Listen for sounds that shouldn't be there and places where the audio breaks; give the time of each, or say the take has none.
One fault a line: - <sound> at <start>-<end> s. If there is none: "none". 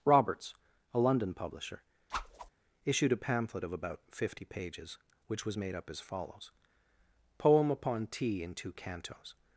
- whoosh at 2.1-2.5 s